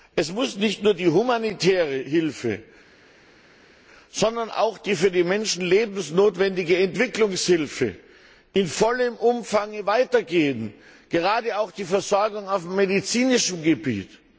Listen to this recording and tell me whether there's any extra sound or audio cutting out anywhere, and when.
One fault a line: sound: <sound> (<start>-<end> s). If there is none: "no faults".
no faults